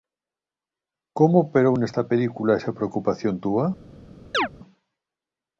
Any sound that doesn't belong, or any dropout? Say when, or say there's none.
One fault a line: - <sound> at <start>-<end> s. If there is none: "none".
- chirp at 4.3-4.5 s